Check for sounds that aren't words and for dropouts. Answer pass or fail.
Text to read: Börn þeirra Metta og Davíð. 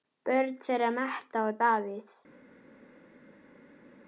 pass